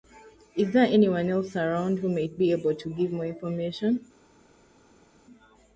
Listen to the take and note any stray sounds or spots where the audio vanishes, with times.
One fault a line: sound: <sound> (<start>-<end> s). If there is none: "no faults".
no faults